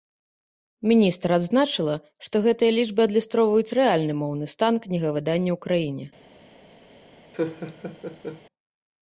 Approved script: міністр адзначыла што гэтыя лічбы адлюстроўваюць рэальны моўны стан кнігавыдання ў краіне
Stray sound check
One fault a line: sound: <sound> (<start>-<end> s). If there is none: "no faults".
sound: laugh (7.3-8.4 s)